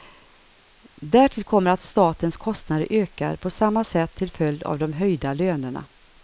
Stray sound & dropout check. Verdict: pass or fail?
pass